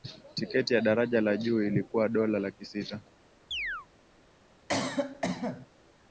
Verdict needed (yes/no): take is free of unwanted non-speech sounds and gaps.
no